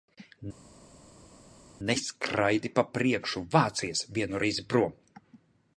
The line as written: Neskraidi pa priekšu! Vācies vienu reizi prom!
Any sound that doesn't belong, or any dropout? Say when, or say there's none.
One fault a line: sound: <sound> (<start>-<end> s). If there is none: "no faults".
no faults